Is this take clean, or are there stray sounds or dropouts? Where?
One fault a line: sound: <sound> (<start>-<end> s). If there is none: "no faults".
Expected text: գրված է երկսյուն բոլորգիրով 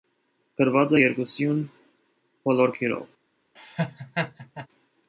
sound: laugh (3.6-4.7 s)